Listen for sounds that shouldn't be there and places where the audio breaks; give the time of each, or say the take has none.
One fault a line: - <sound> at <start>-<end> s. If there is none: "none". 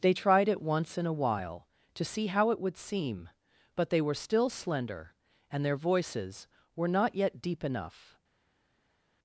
none